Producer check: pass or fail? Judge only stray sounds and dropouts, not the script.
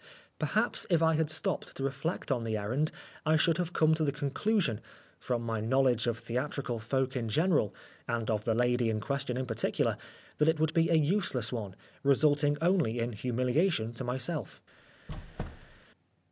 fail